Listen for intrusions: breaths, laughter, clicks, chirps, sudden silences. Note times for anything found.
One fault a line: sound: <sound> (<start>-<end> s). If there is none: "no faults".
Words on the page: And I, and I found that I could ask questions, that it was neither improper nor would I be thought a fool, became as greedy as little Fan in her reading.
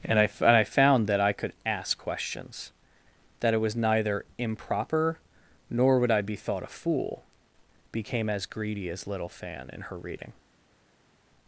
no faults